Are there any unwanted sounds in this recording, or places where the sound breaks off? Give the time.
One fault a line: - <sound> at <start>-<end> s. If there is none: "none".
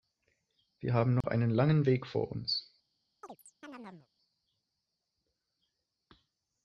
- dropout at 1.2-1.2 s
- chirp at 3.2-4.1 s